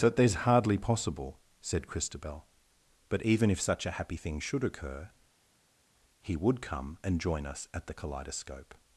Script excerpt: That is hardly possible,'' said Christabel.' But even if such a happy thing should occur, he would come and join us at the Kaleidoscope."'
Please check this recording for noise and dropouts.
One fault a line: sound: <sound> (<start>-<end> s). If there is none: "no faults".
no faults